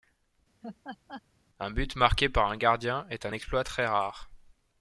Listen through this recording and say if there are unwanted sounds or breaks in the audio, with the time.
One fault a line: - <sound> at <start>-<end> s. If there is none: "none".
- laugh at 0.6-1.2 s